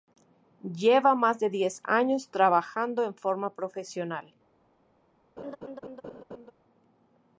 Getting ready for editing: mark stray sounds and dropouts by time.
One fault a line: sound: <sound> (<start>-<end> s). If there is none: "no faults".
sound: laugh (5.4-6.5 s)